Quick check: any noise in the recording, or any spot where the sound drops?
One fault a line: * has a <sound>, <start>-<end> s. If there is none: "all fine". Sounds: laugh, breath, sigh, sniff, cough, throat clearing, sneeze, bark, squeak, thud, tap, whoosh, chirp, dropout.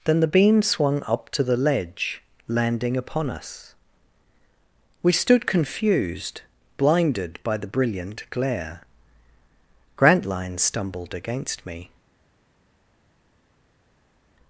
all fine